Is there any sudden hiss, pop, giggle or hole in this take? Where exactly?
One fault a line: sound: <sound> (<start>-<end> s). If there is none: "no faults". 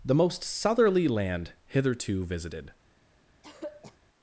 sound: throat clearing (3.4-4.0 s)